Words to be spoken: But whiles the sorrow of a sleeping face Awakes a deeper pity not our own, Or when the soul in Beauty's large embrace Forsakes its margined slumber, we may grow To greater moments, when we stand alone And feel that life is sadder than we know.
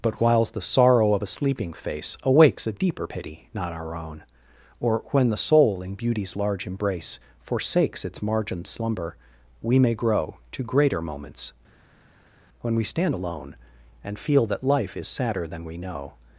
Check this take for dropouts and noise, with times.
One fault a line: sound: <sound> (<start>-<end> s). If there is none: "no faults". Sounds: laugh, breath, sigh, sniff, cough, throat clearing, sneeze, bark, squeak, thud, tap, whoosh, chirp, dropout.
no faults